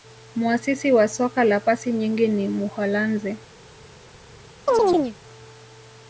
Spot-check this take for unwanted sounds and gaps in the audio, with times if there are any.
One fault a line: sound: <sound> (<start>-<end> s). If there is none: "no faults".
sound: chirp (4.7-5.2 s)